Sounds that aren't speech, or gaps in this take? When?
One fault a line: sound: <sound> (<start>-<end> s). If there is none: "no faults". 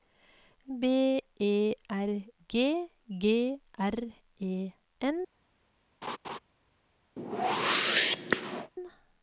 sound: laugh (6.0-6.4 s)
sound: whoosh (7.2-8.7 s)